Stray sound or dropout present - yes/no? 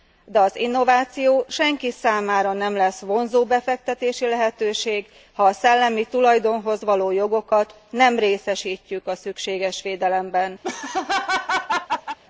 yes